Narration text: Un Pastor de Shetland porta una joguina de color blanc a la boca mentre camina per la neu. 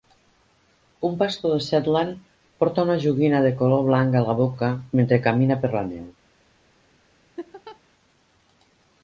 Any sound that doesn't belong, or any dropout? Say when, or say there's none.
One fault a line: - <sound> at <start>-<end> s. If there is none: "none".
- laugh at 7.4-7.8 s